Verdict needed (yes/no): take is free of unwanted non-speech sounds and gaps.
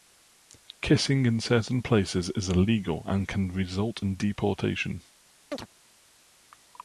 no